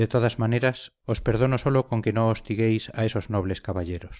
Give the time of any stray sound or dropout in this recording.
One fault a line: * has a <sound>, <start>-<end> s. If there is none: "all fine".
all fine